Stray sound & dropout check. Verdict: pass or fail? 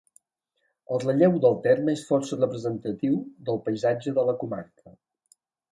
pass